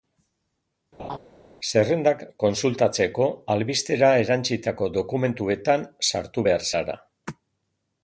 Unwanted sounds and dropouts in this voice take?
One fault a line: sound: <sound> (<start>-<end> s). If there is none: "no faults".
sound: laugh (1.0-1.2 s)